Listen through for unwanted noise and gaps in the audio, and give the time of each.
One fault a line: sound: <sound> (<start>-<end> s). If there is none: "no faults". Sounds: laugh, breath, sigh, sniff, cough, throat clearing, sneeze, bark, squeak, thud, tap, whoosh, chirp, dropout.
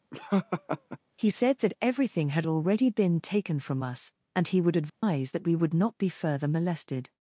sound: laugh (0.1-1.0 s)
sound: dropout (4.9-5.0 s)